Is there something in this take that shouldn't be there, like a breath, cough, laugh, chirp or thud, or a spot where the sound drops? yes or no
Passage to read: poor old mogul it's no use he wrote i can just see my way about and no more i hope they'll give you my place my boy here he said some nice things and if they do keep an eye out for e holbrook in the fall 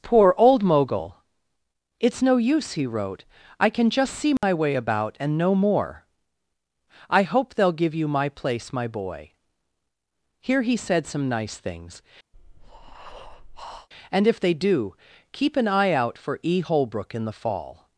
yes